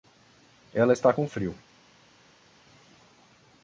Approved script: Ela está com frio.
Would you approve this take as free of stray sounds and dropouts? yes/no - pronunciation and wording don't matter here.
yes